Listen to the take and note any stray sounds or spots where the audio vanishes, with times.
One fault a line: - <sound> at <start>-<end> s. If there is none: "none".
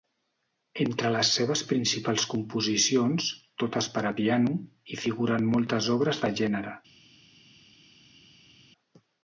none